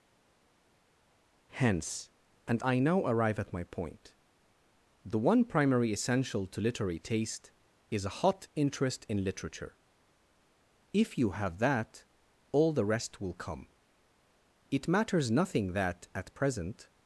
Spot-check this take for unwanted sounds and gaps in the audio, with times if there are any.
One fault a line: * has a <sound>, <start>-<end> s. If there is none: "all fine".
all fine